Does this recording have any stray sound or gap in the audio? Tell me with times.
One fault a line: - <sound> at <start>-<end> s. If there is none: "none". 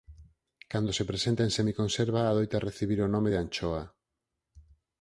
none